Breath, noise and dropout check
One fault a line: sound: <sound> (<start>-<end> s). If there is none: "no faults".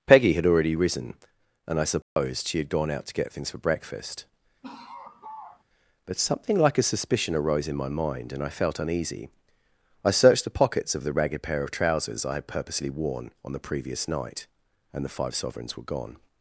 sound: dropout (2.0-2.2 s)
sound: laugh (4.6-5.6 s)